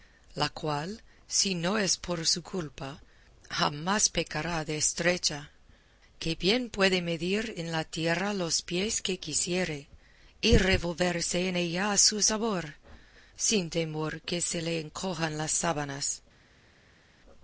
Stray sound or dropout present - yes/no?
no